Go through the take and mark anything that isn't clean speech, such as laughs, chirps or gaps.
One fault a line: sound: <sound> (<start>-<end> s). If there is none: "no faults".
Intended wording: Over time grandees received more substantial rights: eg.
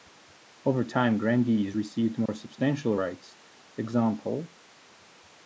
sound: dropout (2.3-2.3 s)